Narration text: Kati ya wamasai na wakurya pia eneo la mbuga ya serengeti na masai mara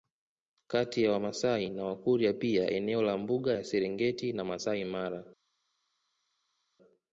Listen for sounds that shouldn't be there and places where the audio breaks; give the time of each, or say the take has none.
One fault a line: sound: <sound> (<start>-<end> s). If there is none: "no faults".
no faults